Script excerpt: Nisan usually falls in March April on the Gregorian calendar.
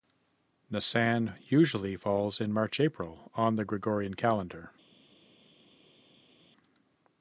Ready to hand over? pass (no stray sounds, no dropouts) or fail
pass